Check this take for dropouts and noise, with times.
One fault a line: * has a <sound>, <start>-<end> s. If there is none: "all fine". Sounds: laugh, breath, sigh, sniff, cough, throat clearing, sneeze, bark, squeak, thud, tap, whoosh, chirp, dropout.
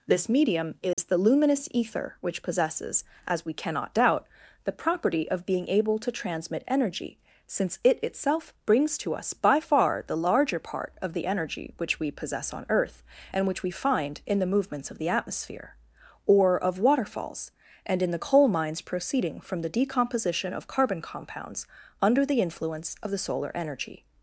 * has a dropout, 0.9-1.0 s